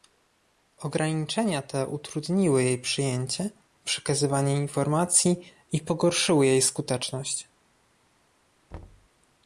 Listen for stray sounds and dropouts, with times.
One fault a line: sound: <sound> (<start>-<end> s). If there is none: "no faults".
sound: thud (8.7-9.1 s)